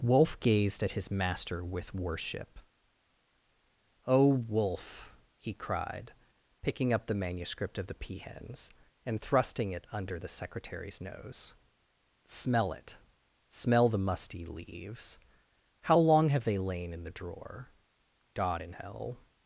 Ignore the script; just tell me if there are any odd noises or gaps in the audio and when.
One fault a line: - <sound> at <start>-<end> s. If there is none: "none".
none